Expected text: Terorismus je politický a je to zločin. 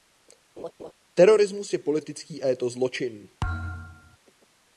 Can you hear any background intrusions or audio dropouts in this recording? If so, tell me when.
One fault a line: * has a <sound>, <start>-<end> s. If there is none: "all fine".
* has a laugh, 0.6-0.9 s
* has a thud, 3.4-4.2 s